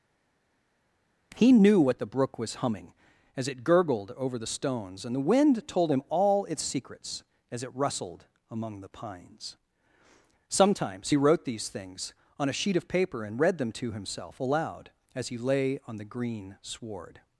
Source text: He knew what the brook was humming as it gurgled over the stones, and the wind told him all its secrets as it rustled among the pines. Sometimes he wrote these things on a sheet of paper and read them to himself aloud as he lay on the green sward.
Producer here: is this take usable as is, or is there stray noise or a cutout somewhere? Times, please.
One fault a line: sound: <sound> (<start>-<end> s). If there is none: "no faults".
no faults